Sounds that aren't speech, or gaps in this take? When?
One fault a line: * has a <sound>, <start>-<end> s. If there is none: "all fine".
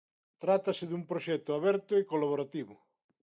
all fine